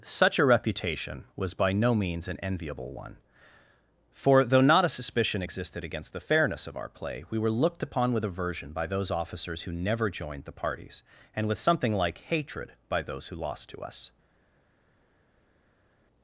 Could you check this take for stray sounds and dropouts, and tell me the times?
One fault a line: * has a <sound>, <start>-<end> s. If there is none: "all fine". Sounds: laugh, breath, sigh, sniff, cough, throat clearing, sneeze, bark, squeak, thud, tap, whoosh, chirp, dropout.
all fine